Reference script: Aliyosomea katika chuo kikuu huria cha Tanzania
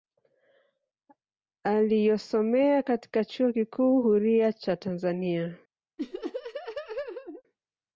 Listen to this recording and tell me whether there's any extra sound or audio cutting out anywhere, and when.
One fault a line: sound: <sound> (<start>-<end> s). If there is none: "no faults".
sound: laugh (6.0-7.4 s)